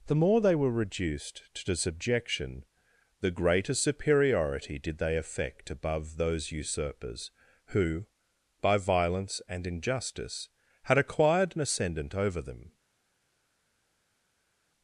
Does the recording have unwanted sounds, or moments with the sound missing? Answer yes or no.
no